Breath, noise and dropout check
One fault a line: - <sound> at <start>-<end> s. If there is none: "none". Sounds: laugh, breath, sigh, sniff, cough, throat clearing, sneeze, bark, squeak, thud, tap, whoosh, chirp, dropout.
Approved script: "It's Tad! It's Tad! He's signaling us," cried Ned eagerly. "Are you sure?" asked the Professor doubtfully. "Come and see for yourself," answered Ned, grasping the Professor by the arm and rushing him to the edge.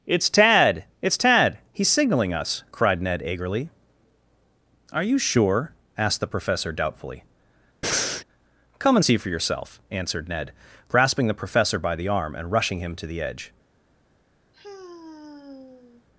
- breath at 7.8-8.2 s
- sigh at 14.5-16.0 s